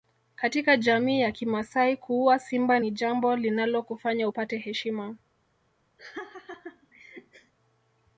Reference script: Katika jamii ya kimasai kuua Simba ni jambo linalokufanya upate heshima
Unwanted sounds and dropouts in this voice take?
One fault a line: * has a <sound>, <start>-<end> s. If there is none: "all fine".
* has a laugh, 6.0-7.5 s